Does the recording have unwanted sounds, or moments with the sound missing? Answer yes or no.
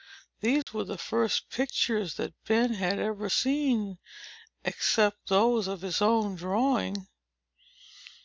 yes